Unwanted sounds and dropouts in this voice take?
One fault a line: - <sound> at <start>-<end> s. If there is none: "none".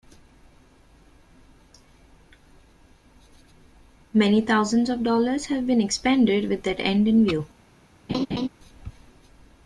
- laugh at 8.1-8.5 s